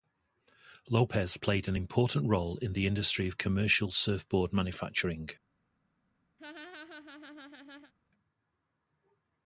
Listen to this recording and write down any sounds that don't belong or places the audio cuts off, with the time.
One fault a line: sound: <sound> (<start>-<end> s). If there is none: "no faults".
sound: laugh (6.4-7.9 s)